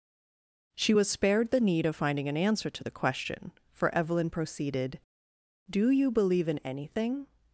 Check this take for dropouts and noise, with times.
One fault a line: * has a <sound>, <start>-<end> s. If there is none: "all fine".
all fine